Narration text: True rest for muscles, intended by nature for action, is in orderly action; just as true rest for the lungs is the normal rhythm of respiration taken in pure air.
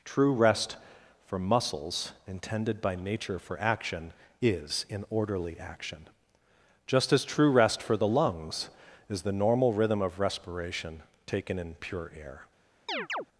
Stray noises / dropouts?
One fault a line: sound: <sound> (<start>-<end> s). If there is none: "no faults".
sound: chirp (12.9-13.3 s)